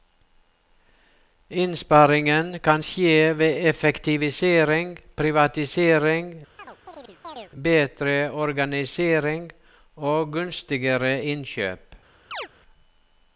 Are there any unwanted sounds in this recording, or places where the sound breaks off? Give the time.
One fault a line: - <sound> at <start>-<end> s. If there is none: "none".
- chirp at 6.6-7.5 s
- chirp at 12.3-12.5 s